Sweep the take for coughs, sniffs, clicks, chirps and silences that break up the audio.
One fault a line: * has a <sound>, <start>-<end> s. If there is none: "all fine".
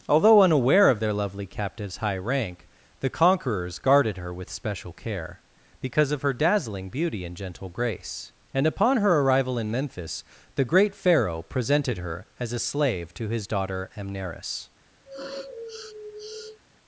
* has a sniff, 15.0-16.6 s